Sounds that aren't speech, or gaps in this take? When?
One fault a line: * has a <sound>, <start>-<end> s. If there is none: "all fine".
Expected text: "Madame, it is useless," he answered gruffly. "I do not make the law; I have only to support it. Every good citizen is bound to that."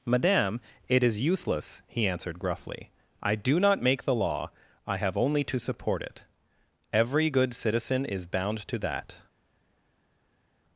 all fine